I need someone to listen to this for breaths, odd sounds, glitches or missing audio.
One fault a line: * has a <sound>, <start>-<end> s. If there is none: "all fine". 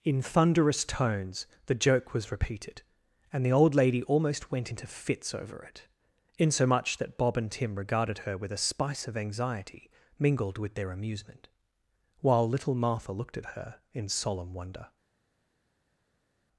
all fine